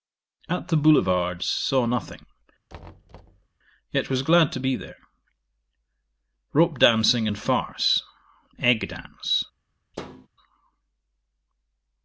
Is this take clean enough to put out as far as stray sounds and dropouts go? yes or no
no